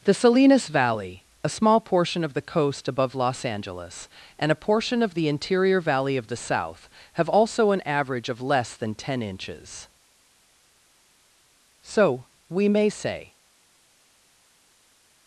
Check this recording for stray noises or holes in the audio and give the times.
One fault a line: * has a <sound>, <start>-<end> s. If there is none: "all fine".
all fine